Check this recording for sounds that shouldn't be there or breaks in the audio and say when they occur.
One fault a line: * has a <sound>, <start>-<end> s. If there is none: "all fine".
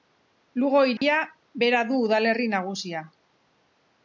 * has a dropout, 1.0-1.0 s